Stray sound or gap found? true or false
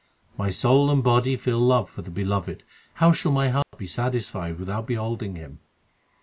true